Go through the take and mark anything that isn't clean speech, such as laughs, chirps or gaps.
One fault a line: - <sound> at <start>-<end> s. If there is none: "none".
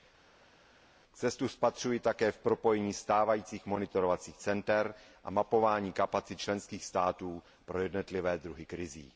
none